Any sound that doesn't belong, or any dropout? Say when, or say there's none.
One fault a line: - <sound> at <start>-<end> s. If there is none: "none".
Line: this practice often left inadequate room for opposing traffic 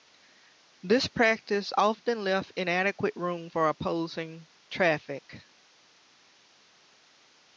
none